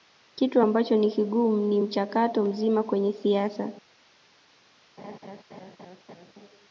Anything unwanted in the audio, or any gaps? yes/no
yes